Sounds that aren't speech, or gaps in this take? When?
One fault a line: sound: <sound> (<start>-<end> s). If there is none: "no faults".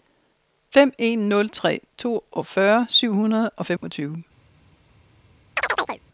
sound: dropout (3.8-3.8 s)
sound: chirp (5.6-6.0 s)